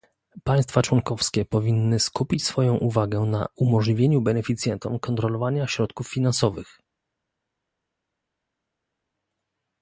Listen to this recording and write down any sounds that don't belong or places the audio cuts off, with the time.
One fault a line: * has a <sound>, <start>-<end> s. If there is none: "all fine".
all fine